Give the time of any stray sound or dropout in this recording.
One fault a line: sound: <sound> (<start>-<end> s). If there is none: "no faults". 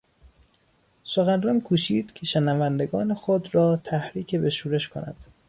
no faults